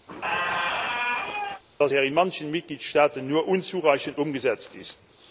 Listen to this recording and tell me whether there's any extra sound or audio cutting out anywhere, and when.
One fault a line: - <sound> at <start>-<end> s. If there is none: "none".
- squeak at 0.1-1.6 s